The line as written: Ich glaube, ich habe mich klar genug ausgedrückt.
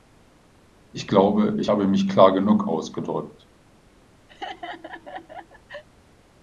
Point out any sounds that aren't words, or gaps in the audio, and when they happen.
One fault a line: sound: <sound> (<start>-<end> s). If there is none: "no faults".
sound: laugh (4.3-5.8 s)